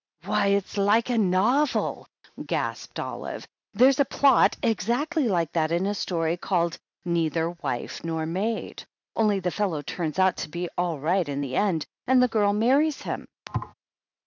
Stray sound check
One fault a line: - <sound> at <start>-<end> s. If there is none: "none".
- thud at 13.5-13.7 s